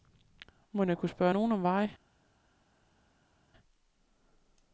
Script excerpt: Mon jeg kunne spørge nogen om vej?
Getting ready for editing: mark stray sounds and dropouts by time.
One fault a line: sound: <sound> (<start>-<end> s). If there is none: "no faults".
no faults